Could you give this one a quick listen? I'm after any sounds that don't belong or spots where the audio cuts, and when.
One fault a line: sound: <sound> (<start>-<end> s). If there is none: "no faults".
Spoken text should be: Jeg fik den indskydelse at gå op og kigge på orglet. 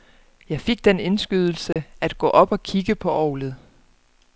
sound: dropout (1.7-1.8 s)